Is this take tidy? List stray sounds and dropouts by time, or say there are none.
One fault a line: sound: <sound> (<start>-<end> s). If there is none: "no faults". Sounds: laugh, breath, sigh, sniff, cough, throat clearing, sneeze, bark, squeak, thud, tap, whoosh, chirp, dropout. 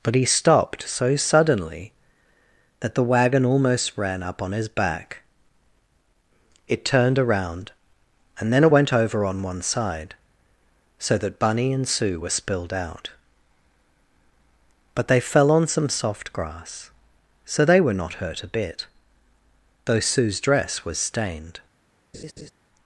sound: laugh (22.1-22.5 s)